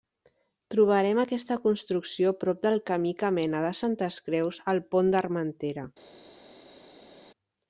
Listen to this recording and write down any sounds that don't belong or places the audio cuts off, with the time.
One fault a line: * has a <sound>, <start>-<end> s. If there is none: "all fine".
all fine